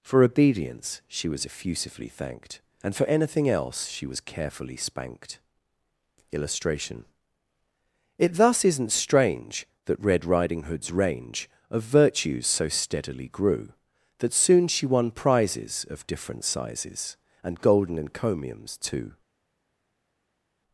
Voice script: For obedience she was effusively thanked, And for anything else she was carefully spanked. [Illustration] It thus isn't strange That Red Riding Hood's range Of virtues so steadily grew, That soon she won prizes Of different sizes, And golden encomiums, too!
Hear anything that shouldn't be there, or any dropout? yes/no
no